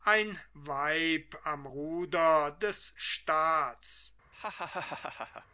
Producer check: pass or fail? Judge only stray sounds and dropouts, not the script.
fail